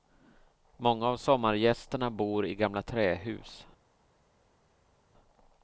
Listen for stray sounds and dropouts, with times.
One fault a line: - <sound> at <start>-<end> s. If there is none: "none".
none